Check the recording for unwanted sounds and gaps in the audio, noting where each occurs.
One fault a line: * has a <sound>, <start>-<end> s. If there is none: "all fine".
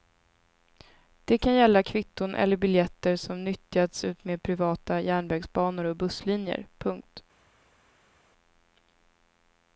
all fine